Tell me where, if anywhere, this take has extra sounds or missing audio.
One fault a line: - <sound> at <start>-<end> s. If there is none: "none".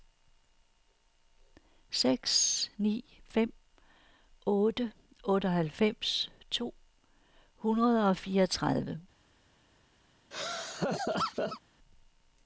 - laugh at 10.3-11.6 s